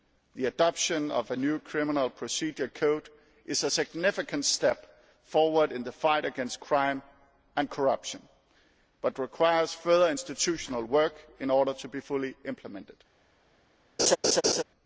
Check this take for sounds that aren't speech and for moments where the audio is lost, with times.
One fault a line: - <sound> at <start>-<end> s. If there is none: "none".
- laugh at 14.0-14.6 s